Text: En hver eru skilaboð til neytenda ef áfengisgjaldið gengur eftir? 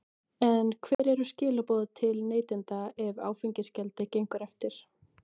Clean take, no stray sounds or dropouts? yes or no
no